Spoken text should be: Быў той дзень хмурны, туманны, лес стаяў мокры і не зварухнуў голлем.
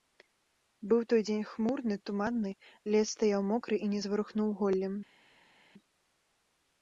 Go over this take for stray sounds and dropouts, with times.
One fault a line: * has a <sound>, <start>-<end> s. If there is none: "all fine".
all fine